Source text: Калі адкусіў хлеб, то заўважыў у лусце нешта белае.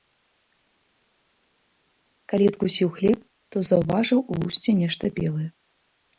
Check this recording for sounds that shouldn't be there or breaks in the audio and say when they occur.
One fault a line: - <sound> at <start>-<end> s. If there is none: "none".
none